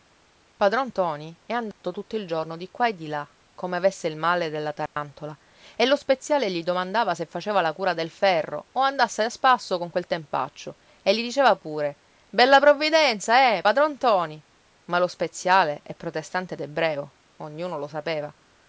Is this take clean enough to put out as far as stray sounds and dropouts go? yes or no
no